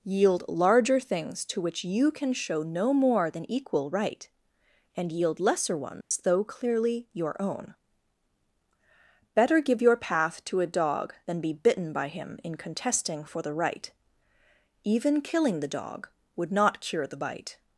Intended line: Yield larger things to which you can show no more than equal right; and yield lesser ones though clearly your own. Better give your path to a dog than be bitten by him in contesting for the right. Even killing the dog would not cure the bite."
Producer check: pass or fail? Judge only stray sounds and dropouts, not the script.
fail